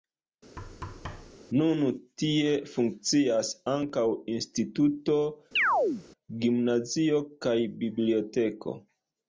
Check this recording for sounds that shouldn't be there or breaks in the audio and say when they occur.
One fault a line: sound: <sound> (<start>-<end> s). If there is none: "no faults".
sound: thud (0.6-1.4 s)
sound: chirp (5.6-6.0 s)